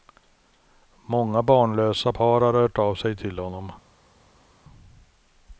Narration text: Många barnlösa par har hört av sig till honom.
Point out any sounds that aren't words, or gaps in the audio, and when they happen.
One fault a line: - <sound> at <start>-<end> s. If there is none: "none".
none